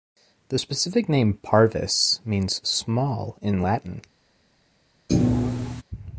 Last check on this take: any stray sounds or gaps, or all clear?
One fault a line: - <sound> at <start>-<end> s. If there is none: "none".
- thud at 5.1-5.8 s